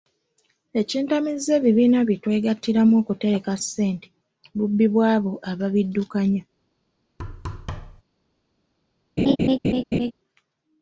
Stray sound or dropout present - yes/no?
yes